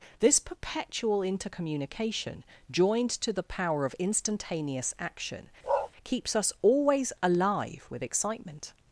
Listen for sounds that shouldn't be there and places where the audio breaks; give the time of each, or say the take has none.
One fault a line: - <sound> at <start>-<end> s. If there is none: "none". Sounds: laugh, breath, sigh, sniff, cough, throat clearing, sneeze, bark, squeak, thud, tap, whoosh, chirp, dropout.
- bark at 5.6-5.9 s